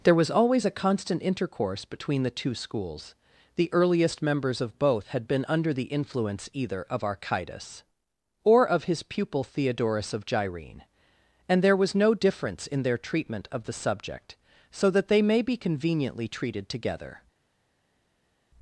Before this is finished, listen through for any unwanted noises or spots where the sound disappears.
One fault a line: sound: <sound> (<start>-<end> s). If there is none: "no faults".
no faults